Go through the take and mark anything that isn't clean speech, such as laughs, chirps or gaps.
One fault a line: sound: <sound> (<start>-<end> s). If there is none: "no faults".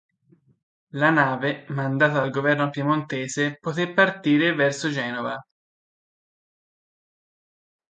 no faults